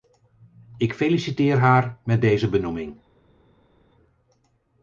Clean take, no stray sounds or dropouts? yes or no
yes